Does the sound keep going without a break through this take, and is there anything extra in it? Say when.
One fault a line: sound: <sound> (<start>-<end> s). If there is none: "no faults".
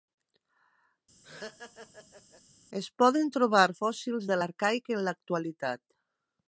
sound: laugh (1.2-2.4 s)